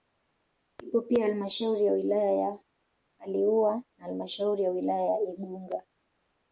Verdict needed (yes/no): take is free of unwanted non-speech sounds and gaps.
yes